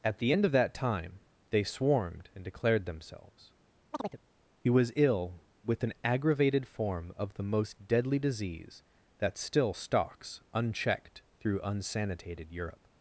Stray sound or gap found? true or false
true